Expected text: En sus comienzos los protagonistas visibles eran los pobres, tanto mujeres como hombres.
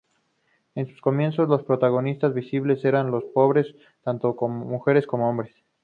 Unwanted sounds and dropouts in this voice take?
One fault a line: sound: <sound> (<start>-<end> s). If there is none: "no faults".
no faults